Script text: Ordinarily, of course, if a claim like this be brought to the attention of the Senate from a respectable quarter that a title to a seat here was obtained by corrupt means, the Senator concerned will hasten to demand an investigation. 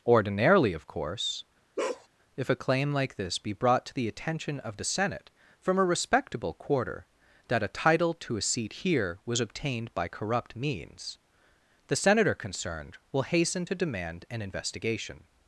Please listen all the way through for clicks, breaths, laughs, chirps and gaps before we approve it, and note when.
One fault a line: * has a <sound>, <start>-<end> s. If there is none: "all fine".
* has a bark, 1.8-2.1 s